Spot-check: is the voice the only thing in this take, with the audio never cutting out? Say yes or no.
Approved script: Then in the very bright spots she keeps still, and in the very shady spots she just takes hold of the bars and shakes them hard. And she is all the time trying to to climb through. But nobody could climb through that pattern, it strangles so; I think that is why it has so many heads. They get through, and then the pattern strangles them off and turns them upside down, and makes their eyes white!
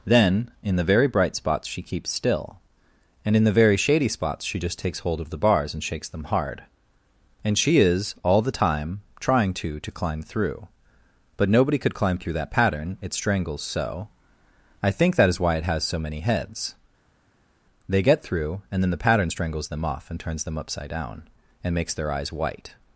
yes